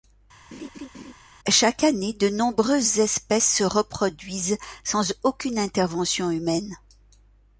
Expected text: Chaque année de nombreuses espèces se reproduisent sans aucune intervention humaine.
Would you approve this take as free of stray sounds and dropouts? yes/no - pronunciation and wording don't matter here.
no